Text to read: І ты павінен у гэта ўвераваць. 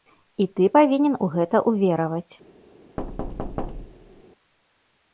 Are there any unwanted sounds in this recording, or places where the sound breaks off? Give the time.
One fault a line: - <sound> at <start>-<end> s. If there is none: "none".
- thud at 3.0-4.2 s